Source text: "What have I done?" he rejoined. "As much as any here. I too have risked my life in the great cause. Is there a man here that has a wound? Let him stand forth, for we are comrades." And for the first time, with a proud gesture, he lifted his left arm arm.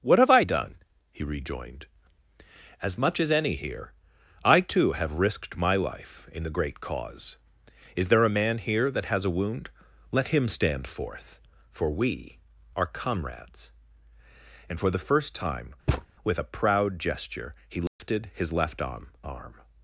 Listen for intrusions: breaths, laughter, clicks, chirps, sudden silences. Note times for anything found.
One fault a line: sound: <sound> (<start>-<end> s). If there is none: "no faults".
sound: thud (15.9-16.1 s)
sound: dropout (17.9-18.0 s)